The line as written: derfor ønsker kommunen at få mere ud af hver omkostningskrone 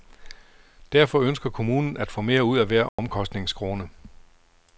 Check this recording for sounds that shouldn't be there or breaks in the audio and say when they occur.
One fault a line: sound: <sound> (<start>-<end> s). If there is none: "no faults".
sound: dropout (2.9-3.0 s)